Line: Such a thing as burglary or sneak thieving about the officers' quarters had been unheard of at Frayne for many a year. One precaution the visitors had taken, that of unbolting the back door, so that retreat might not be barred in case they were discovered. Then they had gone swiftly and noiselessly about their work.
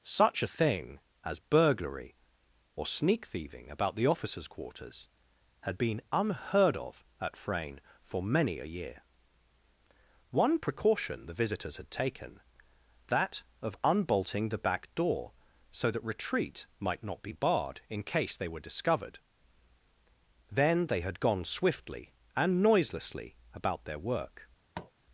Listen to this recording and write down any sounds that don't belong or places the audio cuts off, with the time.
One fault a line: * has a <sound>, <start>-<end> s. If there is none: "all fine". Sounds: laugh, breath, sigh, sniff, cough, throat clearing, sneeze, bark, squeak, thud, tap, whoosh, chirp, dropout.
* has a tap, 24.7-24.9 s